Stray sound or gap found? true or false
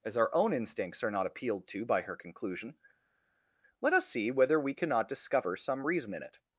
false